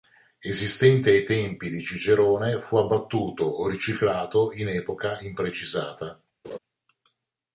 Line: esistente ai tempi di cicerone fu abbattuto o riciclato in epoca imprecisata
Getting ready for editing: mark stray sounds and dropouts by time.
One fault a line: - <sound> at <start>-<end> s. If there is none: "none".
- laugh at 6.4-6.6 s